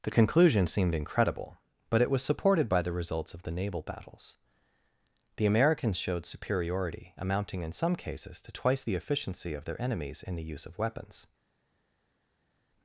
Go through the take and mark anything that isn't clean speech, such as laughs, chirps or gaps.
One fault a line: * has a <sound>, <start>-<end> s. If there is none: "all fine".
all fine